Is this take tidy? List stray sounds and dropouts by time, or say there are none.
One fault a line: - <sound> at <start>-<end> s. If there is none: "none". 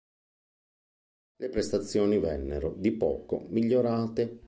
none